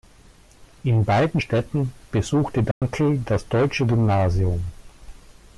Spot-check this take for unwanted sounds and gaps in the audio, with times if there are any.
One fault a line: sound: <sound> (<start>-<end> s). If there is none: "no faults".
sound: dropout (2.7-2.8 s)